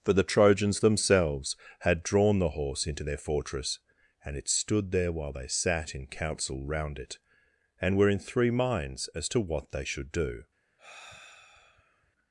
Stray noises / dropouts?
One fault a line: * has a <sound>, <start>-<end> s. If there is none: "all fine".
* has a sigh, 10.8-12.1 s